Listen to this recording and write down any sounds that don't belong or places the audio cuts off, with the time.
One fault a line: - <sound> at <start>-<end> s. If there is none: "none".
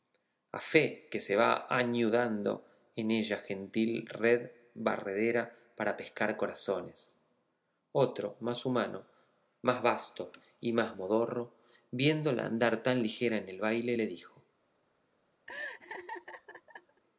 - laugh at 15.5-17.0 s